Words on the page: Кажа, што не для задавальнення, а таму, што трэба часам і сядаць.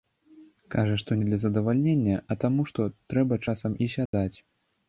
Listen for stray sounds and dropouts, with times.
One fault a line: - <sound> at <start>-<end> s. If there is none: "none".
- dropout at 4.1-4.1 s